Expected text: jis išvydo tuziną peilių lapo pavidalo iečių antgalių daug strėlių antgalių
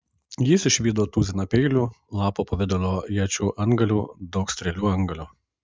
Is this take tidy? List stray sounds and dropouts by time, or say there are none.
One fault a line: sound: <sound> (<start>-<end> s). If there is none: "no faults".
no faults